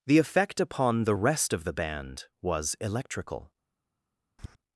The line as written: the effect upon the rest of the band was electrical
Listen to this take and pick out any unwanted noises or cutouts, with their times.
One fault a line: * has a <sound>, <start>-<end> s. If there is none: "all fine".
* has a tap, 4.4-4.6 s